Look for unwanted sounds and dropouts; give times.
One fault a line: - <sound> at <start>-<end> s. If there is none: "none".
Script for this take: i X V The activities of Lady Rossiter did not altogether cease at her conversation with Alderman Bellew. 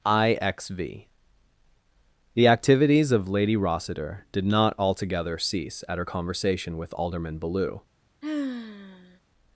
- sigh at 8.2-9.2 s